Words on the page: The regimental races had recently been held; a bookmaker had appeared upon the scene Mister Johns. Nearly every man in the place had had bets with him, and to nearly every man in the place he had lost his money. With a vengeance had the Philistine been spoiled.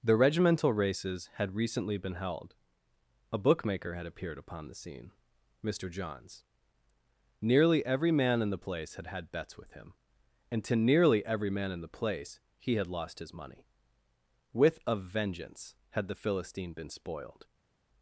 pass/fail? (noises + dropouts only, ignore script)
pass